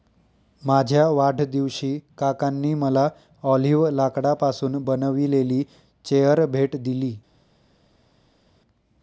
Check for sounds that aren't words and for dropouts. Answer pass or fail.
pass